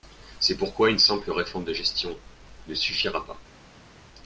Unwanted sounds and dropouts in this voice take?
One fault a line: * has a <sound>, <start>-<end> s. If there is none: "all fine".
all fine